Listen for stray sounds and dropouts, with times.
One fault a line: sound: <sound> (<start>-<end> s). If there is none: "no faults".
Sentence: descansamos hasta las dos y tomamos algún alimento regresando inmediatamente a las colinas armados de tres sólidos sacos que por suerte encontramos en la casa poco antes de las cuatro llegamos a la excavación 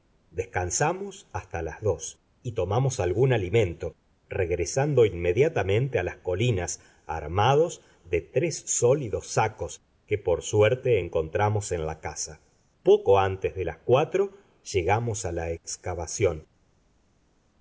no faults